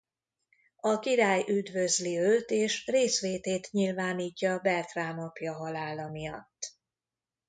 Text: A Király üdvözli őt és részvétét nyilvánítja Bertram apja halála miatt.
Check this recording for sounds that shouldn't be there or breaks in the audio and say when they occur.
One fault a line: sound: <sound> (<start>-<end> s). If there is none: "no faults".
no faults